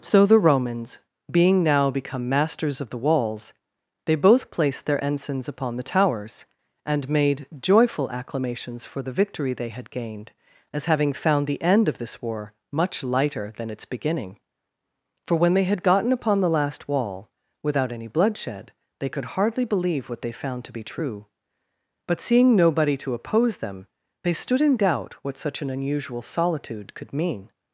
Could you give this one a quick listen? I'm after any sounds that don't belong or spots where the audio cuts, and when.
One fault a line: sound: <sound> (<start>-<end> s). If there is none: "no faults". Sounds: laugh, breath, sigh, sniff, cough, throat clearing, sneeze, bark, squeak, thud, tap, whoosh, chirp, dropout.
no faults